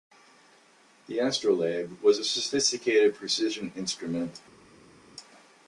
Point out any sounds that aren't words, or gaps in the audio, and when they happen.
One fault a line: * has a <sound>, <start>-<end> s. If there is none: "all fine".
all fine